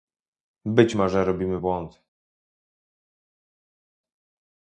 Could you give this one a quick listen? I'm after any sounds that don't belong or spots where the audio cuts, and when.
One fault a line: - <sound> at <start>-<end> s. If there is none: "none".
none